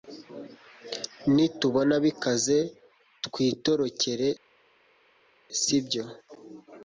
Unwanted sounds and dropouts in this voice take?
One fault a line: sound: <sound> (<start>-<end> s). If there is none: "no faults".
no faults